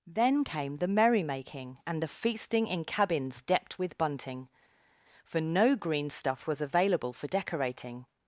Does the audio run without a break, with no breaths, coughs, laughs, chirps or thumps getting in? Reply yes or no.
yes